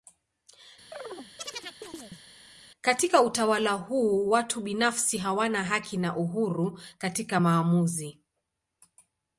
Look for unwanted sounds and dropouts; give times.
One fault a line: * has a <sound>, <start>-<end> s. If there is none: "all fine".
* has a chirp, 0.9-2.2 s